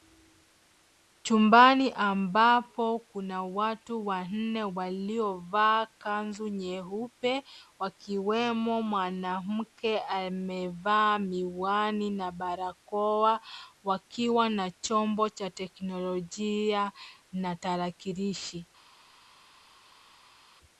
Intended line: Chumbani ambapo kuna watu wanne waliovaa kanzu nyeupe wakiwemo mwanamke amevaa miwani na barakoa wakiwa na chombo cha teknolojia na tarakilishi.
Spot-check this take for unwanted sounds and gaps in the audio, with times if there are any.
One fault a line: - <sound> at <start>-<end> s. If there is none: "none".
none